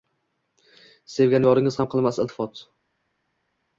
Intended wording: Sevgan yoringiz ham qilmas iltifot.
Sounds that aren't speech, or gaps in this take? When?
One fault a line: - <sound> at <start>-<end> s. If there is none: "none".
none